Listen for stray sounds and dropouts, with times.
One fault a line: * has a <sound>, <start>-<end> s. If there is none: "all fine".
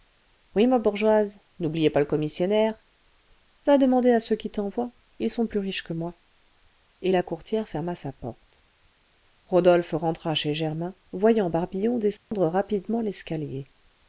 * has a dropout, 12.2-12.3 s